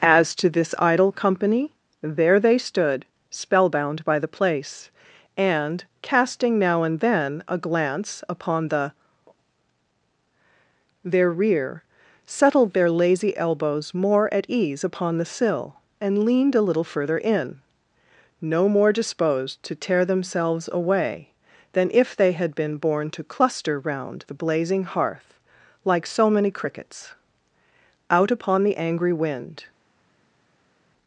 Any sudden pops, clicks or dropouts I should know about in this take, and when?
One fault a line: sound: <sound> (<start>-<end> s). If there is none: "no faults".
no faults